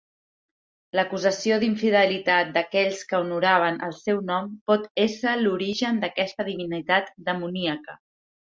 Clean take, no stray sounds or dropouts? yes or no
yes